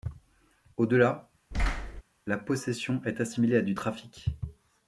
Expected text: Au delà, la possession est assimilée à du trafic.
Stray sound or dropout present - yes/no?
yes